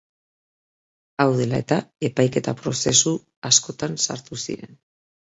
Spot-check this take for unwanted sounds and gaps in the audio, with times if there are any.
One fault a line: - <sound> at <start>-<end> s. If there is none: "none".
none